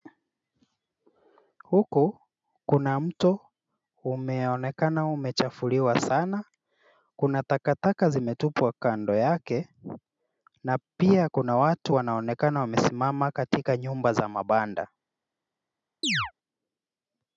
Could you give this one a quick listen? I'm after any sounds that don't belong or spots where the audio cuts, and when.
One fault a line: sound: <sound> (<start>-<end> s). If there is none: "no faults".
sound: chirp (16.0-16.3 s)